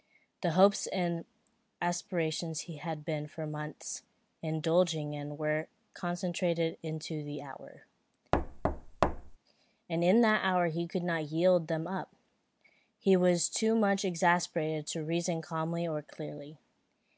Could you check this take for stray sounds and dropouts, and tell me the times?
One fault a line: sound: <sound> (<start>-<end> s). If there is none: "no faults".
sound: thud (8.3-9.4 s)